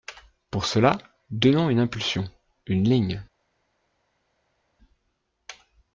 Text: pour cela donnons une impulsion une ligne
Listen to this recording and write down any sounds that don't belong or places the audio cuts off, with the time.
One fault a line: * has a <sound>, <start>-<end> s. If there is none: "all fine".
all fine